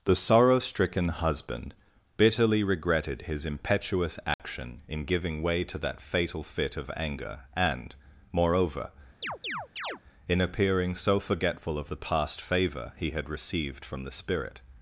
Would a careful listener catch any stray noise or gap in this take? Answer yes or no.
yes